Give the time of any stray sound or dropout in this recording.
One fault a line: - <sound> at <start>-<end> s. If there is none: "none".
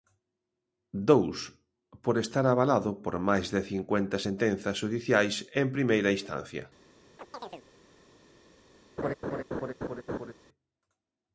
- chirp at 7.2-7.6 s
- laugh at 9.0-10.3 s